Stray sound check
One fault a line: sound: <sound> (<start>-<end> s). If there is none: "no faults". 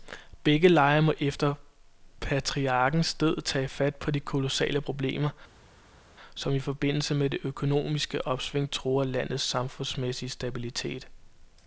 no faults